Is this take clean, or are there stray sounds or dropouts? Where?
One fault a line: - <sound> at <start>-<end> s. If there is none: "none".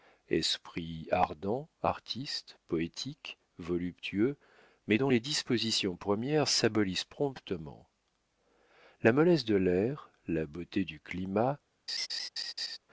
- laugh at 11.9-12.8 s